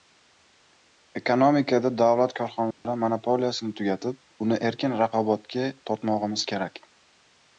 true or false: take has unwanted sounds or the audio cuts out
true